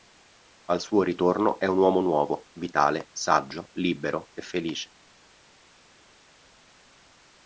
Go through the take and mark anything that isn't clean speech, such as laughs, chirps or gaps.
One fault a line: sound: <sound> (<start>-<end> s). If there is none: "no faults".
no faults